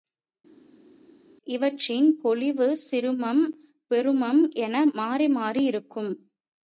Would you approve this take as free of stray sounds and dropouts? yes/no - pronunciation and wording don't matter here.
yes